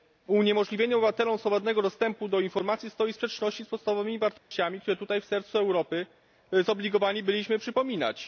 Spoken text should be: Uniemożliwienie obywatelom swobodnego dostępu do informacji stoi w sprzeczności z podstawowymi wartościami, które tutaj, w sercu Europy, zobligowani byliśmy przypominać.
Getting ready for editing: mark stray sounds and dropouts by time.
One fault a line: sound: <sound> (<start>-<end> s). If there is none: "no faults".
sound: dropout (4.4-4.5 s)